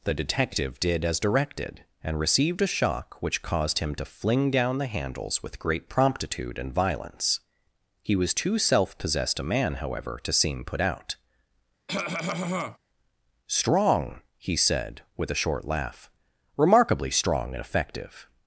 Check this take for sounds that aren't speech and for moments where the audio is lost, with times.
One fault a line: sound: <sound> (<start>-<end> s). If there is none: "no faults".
sound: cough (11.9-12.8 s)